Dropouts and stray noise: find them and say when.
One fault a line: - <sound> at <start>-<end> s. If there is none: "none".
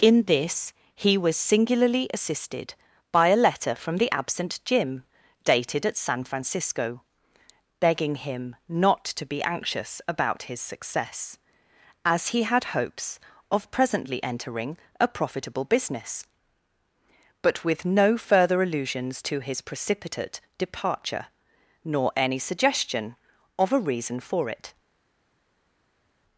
none